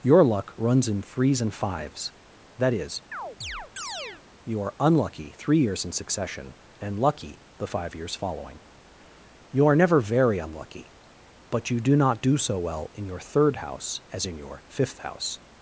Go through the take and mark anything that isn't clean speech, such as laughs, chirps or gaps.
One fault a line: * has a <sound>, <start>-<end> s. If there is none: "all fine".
* has a chirp, 3.1-4.2 s